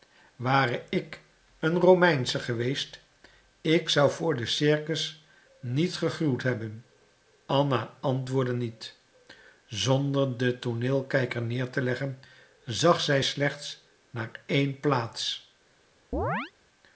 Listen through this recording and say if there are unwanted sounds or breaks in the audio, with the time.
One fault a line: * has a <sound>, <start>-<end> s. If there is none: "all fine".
* has a chirp, 16.1-16.5 s